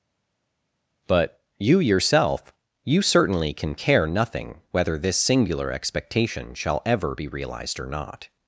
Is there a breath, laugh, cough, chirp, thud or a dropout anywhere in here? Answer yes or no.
no